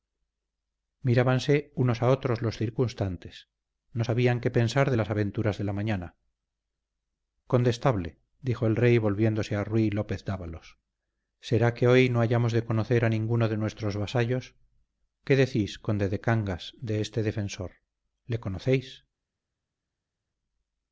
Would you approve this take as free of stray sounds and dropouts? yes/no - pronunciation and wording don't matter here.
yes